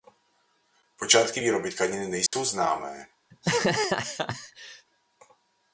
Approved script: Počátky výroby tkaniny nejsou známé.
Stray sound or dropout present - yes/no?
yes